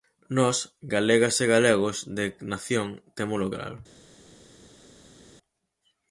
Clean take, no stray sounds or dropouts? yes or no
yes